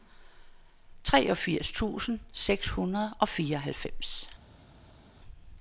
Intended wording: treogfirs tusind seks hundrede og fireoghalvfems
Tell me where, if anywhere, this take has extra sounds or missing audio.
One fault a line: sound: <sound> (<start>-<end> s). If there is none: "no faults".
no faults